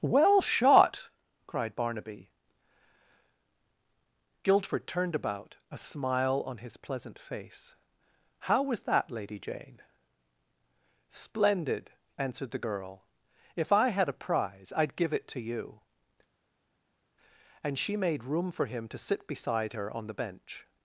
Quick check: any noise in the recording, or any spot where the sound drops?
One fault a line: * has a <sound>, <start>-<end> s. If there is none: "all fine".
all fine